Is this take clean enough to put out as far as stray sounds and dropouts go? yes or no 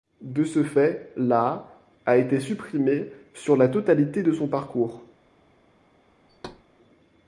no